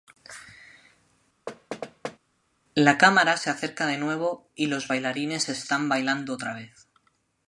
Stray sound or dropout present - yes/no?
yes